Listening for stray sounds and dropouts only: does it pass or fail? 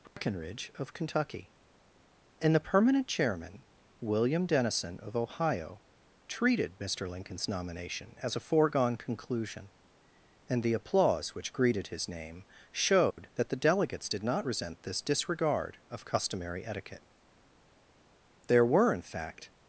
fail